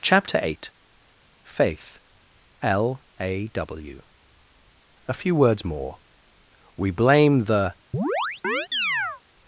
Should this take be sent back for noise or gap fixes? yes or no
yes